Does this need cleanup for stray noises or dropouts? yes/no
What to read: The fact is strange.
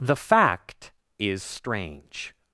no